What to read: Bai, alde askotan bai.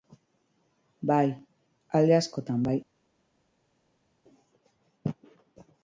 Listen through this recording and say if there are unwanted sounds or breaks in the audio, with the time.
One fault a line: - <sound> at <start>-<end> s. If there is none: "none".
none